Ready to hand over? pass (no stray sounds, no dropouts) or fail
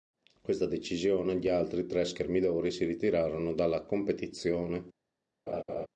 fail